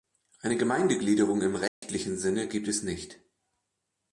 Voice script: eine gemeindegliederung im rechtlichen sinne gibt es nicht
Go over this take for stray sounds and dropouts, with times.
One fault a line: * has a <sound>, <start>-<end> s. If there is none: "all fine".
* has a dropout, 1.7-1.8 s